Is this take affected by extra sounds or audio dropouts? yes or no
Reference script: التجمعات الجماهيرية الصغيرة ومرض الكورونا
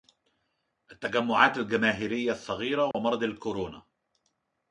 yes